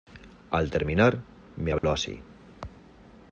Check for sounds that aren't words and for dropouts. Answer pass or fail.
fail